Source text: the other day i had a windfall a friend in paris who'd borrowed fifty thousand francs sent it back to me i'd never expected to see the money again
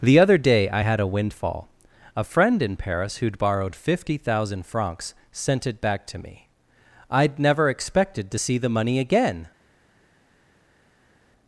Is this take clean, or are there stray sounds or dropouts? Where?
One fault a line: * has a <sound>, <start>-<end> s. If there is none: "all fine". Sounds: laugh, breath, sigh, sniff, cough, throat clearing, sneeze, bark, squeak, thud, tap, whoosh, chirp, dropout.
all fine